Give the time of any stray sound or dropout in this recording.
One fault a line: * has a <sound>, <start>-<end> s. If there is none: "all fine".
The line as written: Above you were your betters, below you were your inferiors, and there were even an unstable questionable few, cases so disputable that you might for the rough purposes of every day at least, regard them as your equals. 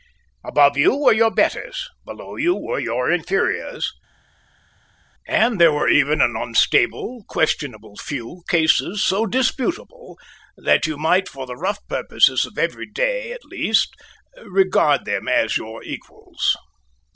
all fine